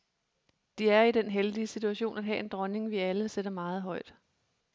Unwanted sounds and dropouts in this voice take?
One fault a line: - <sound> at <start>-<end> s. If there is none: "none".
none